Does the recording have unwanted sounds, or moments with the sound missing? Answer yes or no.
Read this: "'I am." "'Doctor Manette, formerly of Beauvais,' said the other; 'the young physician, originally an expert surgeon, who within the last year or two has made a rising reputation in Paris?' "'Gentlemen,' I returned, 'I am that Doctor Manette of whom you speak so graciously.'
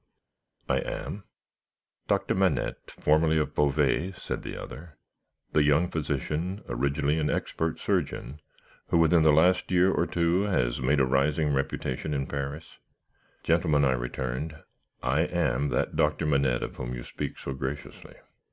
no